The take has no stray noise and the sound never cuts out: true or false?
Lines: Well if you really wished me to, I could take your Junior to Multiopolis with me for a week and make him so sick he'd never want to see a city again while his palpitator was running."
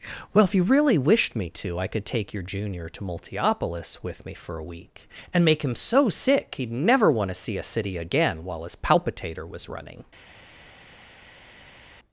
true